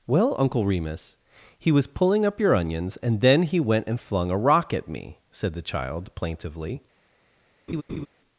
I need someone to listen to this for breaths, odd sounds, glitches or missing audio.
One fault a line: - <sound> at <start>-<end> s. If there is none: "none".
- laugh at 7.7-8.1 s